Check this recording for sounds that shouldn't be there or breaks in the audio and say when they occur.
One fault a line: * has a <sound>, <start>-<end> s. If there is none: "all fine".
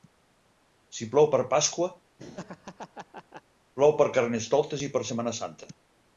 * has a laugh, 2.2-3.4 s